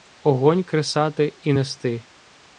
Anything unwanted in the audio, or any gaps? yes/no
no